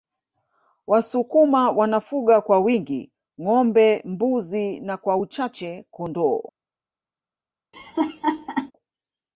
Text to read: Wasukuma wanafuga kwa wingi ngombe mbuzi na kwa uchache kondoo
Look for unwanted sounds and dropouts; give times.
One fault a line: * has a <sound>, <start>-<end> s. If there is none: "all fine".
* has a laugh, 7.7-8.7 s